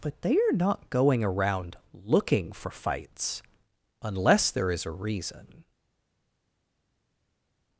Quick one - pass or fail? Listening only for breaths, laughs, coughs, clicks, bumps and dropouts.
pass